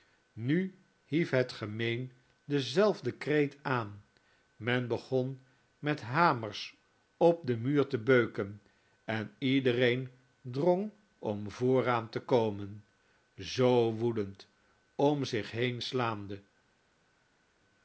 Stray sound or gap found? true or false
false